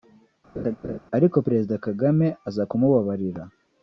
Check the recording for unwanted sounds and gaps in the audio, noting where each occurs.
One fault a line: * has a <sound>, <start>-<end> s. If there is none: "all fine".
* has a laugh, 0.5-1.0 s